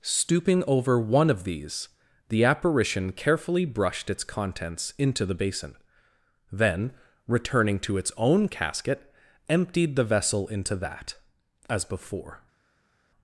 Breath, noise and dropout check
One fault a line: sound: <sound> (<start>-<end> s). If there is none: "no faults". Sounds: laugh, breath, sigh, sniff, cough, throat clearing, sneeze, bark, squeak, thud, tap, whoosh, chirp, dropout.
no faults